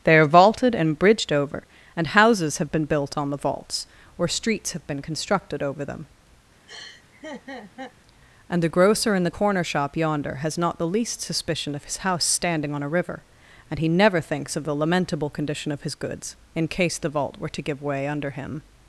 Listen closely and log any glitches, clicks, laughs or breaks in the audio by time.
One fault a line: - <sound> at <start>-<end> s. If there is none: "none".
- laugh at 6.7-7.9 s